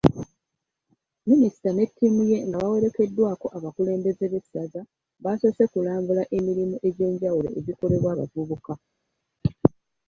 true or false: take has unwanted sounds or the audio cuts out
false